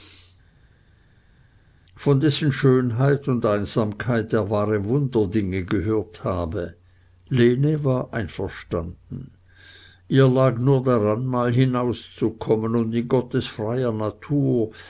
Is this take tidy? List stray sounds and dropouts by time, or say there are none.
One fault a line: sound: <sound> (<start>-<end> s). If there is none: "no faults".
no faults